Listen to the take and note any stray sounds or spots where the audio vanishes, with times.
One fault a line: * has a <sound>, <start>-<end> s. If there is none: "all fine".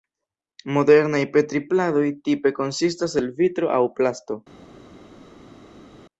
all fine